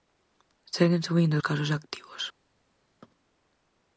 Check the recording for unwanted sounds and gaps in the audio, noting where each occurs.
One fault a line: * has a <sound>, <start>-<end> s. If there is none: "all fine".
all fine